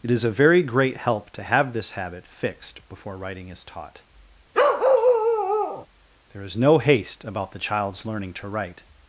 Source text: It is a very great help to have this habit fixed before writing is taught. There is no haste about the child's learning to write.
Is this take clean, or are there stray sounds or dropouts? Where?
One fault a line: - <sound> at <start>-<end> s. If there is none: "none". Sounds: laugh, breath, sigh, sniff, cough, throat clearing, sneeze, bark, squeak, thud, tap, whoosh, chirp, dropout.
- bark at 4.5-5.9 s